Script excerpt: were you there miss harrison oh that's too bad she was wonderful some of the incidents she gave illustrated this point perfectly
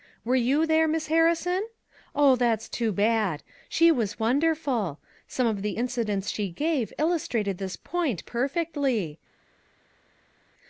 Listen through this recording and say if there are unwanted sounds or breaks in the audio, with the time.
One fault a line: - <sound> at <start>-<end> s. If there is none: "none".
none